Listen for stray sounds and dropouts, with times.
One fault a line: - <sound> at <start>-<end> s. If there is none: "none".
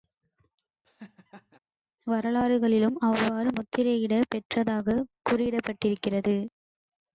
- laugh at 0.8-1.6 s